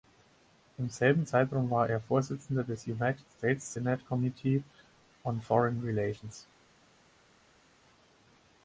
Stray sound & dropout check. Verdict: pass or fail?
pass